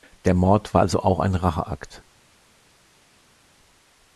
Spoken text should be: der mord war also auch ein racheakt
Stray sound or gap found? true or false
false